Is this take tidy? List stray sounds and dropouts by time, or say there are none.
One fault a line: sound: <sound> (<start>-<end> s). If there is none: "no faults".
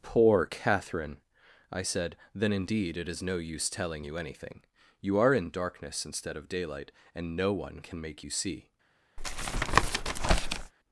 sound: tap (9.2-10.7 s)